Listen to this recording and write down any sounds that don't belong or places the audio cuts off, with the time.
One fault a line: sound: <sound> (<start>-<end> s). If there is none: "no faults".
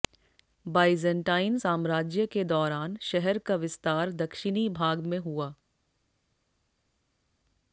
no faults